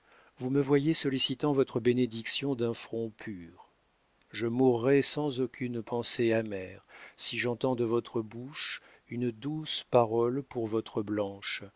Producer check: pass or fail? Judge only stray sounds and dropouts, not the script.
pass